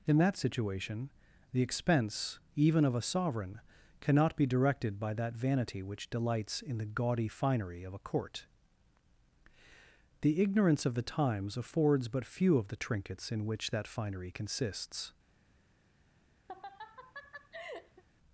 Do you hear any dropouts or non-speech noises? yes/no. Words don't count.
yes